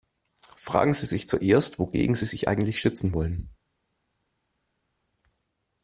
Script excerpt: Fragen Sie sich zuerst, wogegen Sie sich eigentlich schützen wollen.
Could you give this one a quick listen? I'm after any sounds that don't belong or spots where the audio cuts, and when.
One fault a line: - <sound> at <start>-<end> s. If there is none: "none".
none